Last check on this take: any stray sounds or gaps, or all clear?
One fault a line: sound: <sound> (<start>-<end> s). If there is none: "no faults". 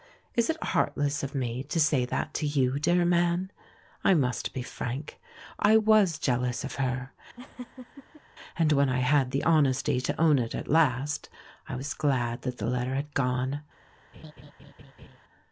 sound: laugh (7.4-8.2 s)
sound: laugh (14.1-15.2 s)